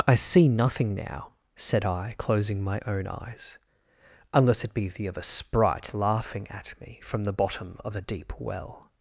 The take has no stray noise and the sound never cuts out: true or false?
true